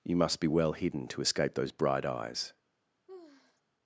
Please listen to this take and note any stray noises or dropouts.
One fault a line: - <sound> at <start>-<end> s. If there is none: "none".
- sigh at 3.1-3.6 s